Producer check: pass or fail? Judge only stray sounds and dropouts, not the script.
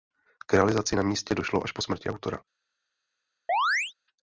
fail